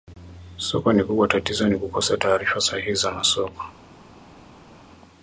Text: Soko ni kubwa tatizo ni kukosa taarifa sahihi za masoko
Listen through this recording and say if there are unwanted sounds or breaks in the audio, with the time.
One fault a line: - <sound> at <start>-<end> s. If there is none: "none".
none